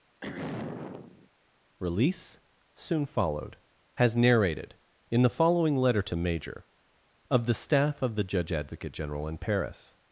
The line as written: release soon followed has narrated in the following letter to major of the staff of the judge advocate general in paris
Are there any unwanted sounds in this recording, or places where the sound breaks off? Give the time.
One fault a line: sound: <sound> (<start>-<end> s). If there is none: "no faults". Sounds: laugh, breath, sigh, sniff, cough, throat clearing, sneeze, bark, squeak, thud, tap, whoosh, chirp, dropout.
sound: throat clearing (0.2-1.3 s)